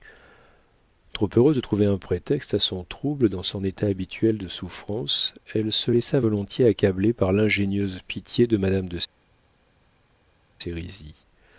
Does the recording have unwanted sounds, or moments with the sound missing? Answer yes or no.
no